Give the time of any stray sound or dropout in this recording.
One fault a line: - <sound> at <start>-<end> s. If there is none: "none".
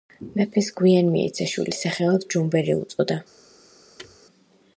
- thud at 4.0-4.2 s